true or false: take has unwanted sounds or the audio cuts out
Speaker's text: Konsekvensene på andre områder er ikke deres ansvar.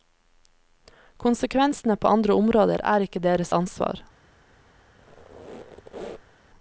true